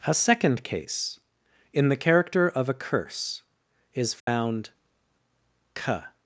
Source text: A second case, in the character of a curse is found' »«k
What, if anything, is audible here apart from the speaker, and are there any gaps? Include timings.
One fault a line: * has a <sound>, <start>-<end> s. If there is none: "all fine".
* has a dropout, 4.2-4.3 s